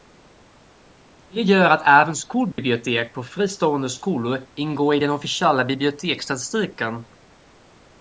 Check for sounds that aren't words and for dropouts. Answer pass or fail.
fail